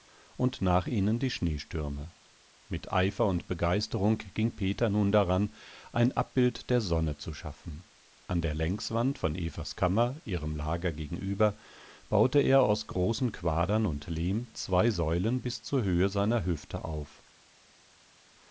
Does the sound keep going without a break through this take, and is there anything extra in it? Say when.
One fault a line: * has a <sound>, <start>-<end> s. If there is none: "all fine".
all fine